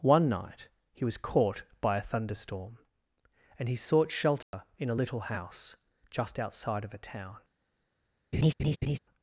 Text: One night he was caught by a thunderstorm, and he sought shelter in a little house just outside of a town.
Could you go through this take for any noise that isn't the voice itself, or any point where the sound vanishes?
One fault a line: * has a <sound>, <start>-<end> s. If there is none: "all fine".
* has a dropout, 4.4-4.5 s
* has a laugh, 8.3-9.0 s